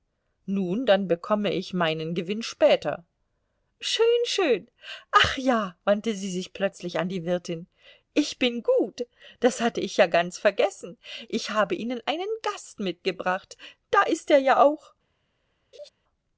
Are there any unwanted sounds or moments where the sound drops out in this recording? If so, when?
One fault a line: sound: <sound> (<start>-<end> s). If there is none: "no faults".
sound: laugh (15.7-15.9 s)